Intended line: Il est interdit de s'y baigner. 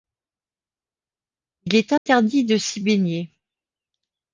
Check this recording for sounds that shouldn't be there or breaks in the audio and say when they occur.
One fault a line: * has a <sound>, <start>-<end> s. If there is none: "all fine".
* has a dropout, 2.0-2.1 s